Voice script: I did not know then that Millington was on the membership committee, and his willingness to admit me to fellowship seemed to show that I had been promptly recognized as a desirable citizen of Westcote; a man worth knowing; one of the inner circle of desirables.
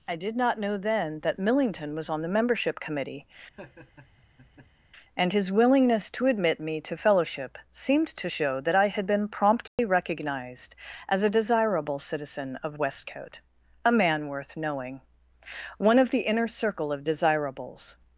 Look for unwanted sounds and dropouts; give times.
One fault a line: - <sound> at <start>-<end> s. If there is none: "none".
- laugh at 3.5-4.9 s
- dropout at 9.7-9.8 s